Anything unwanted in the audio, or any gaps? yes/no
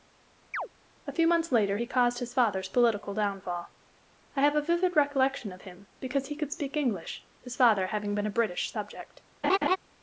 yes